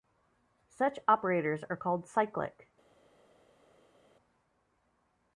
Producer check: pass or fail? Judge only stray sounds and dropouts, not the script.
pass